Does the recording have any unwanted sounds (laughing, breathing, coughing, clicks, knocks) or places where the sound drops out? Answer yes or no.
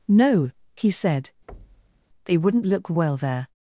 yes